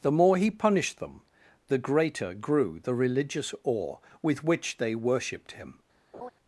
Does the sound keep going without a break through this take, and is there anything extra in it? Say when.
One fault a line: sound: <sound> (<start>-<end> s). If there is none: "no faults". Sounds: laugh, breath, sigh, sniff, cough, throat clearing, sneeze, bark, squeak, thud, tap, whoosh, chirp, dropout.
sound: laugh (6.1-6.3 s)